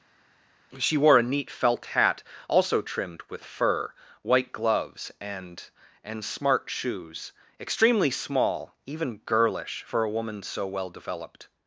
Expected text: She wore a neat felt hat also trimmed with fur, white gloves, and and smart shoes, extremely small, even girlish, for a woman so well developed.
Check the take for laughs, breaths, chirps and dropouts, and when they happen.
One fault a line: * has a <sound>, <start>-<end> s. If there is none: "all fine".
all fine